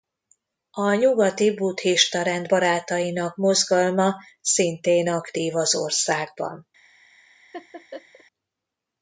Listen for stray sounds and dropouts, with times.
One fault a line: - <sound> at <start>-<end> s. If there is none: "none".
- laugh at 7.5-8.2 s